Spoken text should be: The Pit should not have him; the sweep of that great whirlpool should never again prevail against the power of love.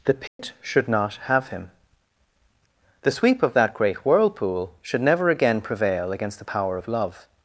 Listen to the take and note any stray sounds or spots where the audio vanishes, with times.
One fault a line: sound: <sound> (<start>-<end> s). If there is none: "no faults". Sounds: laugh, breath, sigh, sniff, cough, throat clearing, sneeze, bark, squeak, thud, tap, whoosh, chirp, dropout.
sound: dropout (0.3-0.4 s)